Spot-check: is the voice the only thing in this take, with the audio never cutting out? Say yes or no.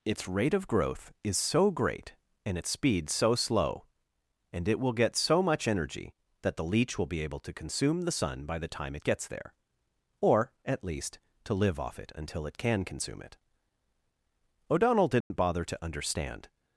no